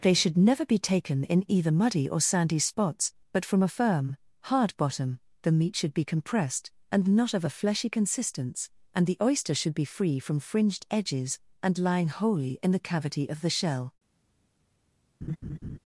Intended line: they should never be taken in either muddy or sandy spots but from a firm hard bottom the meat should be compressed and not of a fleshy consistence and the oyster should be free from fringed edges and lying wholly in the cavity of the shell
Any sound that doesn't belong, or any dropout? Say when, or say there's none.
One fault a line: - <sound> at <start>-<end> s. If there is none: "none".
- laugh at 15.2-15.8 s